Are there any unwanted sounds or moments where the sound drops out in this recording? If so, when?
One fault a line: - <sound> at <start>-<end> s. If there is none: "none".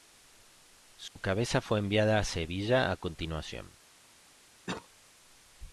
- dropout at 1.1-1.2 s
- cough at 4.7-4.9 s